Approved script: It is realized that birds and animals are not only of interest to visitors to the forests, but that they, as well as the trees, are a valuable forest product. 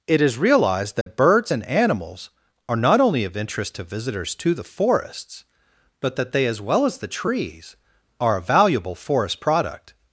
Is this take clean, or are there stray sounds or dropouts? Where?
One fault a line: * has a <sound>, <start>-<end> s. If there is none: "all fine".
* has a dropout, 1.0-1.1 s